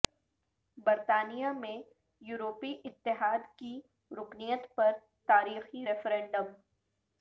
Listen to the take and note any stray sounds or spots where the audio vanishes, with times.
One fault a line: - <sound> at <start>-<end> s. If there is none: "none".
none